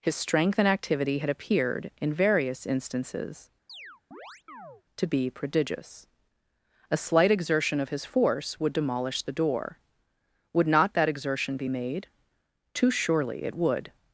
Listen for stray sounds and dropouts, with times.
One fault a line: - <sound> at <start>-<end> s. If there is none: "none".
- chirp at 3.7-4.8 s